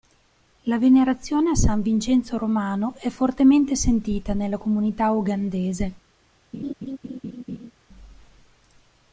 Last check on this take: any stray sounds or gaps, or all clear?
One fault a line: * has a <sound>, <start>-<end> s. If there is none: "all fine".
* has a laugh, 6.5-7.7 s